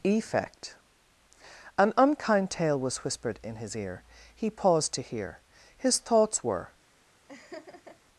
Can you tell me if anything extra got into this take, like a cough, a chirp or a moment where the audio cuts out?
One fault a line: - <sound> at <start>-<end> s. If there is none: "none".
- laugh at 7.3-8.0 s